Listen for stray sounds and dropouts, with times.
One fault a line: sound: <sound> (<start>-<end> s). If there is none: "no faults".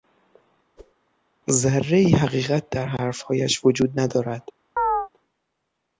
sound: whoosh (0.8-0.9 s)
sound: chirp (4.8-5.1 s)